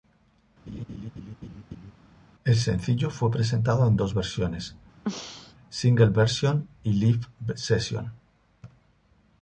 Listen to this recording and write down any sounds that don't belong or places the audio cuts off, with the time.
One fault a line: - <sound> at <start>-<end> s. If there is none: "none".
- laugh at 0.7-1.9 s
- throat clearing at 5.0-5.5 s